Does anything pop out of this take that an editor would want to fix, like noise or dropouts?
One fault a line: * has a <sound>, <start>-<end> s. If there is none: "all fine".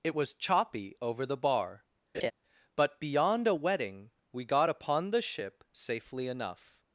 * has a laugh, 2.1-2.3 s